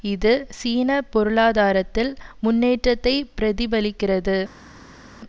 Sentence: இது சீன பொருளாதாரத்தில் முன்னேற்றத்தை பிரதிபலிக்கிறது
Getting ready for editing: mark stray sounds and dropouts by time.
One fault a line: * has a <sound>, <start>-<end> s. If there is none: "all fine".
all fine